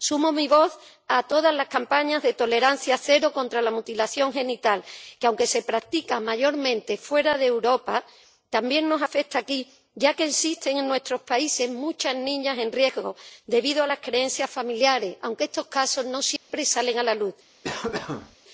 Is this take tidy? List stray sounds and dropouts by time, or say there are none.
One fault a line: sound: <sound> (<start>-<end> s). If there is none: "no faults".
sound: dropout (16.4-16.5 s)
sound: cough (17.6-18.4 s)